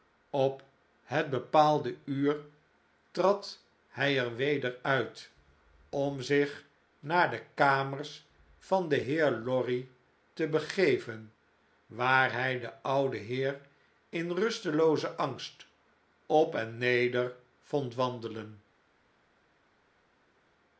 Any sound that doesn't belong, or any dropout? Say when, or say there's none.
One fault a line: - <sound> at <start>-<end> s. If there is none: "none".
none